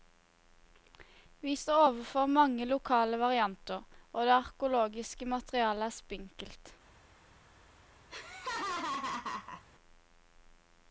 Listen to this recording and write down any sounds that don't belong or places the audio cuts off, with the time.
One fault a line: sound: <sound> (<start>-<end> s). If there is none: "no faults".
sound: laugh (8.1-9.6 s)